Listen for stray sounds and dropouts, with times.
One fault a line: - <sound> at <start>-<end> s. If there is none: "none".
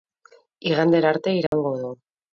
- dropout at 1.5-1.5 s